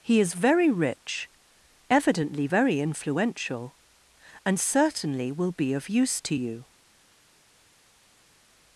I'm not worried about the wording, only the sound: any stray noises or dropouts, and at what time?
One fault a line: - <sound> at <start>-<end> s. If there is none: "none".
none